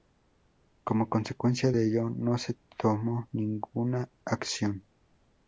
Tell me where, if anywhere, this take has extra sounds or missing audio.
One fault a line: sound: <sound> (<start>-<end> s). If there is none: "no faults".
no faults